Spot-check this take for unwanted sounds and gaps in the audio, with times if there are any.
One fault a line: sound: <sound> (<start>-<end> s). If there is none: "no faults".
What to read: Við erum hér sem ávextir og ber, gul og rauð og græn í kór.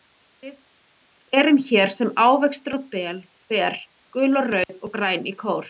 sound: dropout (4.6-4.7 s)